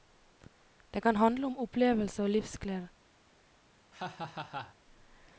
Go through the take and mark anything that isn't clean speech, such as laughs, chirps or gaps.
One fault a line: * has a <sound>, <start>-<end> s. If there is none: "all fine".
* has a laugh, 3.9-4.8 s